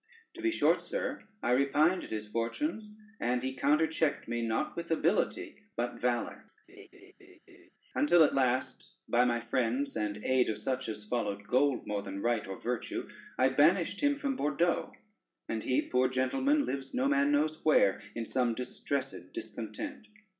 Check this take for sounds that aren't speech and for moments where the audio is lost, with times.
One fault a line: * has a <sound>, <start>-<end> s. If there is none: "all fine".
* has a laugh, 6.7-7.7 s